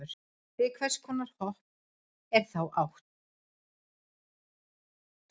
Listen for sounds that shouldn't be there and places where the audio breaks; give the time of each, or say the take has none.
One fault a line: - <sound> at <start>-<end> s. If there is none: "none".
none